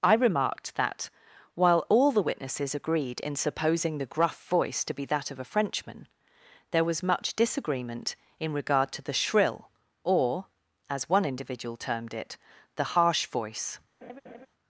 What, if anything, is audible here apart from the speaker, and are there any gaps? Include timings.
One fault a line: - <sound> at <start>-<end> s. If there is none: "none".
- laugh at 14.0-14.5 s